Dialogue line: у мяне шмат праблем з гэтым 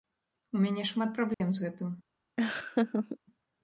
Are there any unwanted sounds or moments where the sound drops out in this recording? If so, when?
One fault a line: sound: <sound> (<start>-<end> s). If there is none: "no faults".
sound: dropout (1.3-1.4 s)
sound: laugh (2.4-3.2 s)